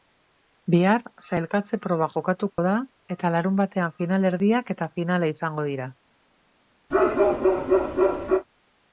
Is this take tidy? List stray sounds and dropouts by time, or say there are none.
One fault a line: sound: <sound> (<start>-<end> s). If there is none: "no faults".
sound: dropout (2.5-2.6 s)
sound: bark (6.9-8.5 s)